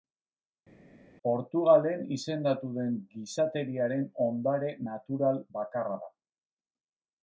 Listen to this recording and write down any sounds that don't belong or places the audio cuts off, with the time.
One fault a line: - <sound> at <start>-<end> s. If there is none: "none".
none